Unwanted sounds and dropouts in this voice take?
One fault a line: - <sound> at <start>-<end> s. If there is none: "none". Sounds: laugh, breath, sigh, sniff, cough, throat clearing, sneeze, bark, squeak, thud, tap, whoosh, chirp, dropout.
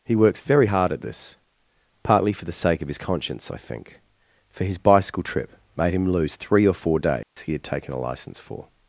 - dropout at 7.2-7.4 s